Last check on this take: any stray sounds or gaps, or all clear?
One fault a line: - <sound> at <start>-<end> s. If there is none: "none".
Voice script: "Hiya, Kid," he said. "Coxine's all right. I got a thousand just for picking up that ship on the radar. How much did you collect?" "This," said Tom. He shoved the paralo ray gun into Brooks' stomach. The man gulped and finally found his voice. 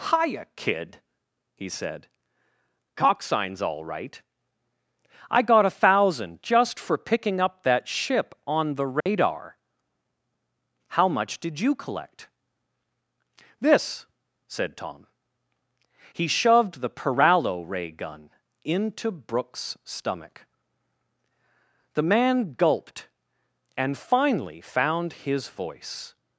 - dropout at 9.0-9.1 s